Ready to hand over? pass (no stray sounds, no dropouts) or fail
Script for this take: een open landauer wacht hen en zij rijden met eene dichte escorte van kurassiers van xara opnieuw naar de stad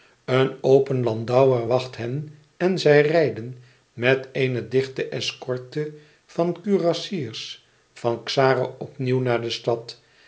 pass